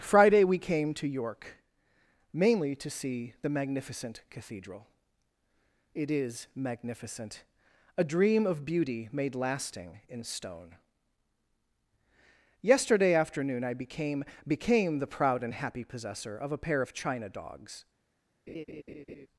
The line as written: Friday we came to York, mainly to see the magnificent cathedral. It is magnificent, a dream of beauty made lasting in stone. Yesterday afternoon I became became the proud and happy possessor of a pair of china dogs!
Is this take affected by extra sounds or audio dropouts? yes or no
yes